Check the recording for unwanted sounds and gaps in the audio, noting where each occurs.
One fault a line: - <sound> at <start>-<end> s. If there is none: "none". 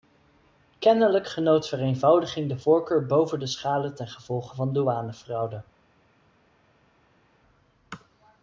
none